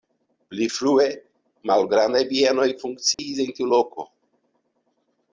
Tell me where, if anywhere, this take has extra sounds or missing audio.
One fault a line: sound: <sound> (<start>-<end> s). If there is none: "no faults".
sound: dropout (3.1-3.2 s)